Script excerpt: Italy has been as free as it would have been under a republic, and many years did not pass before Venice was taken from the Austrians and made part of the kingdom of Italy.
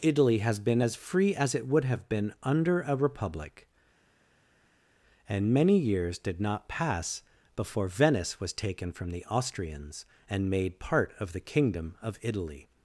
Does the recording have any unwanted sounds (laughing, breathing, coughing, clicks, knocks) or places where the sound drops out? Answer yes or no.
no